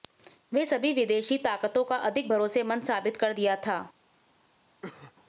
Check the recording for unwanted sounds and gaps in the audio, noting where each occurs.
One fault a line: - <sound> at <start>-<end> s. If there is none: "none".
- cough at 4.8-5.1 s